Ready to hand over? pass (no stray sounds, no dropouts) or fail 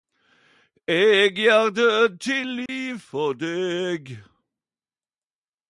fail